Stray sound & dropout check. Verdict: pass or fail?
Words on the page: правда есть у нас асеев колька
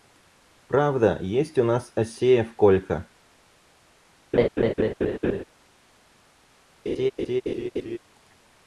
fail